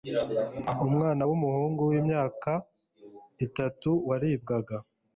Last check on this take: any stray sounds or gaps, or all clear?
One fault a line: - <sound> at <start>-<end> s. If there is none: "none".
none